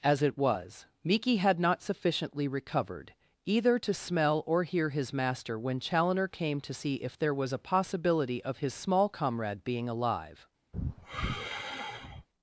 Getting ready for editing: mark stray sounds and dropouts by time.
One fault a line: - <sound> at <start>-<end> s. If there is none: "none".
- sigh at 10.7-12.3 s